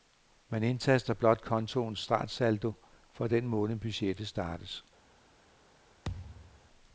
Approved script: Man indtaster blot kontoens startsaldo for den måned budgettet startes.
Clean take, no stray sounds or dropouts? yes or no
no